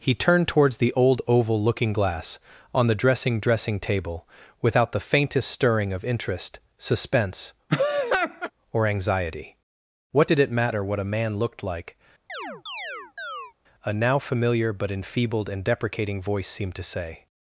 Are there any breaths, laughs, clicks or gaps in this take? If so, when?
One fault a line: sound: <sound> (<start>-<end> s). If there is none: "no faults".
sound: laugh (7.7-8.5 s)
sound: chirp (12.3-13.5 s)